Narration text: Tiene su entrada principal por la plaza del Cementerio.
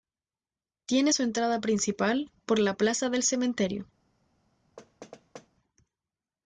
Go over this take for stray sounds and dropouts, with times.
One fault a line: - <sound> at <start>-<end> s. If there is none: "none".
- thud at 4.8-5.5 s